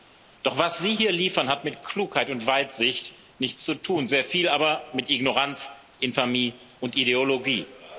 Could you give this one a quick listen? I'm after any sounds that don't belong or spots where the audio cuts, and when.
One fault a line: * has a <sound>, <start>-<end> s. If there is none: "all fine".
all fine